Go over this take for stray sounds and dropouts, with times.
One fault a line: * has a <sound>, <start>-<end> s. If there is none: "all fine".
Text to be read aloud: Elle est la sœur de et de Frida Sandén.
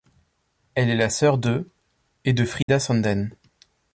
* has a dropout, 2.6-2.7 s